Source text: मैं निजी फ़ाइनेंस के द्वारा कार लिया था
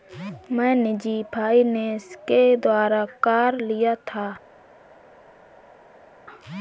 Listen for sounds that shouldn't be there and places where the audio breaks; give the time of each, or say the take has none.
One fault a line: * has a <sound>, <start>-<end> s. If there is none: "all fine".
all fine